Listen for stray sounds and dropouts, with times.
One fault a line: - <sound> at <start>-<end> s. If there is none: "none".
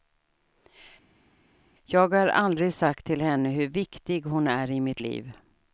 none